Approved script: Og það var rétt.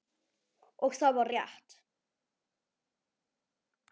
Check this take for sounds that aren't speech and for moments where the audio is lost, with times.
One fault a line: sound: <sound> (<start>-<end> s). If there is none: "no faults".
no faults